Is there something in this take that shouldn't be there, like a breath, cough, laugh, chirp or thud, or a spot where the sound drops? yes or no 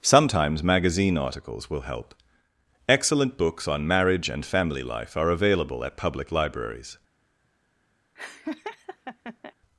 yes